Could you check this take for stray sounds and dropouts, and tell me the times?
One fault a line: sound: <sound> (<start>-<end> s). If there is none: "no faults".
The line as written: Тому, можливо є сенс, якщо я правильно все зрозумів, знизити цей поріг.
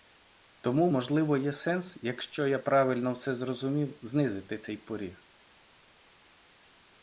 no faults